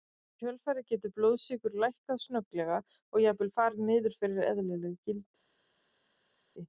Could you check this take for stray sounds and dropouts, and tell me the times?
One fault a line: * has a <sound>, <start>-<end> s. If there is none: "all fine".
all fine